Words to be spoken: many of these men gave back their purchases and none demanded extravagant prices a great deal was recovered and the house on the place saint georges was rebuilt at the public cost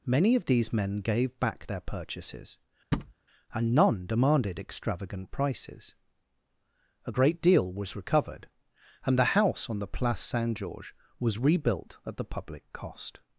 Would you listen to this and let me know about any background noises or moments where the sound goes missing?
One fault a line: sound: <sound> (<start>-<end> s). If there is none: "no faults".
sound: thud (2.9-3.1 s)